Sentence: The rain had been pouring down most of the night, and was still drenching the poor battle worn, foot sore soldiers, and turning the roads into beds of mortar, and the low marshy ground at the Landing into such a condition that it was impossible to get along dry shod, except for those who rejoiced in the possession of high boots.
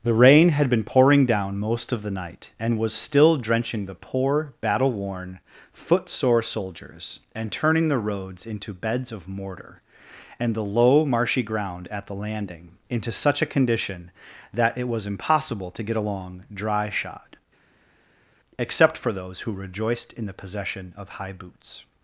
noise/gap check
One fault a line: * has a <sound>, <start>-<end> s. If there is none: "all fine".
all fine